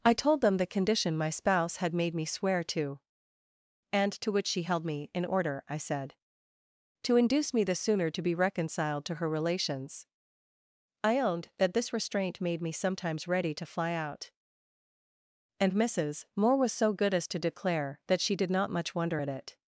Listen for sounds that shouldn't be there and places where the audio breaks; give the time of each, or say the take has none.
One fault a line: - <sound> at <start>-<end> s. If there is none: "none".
none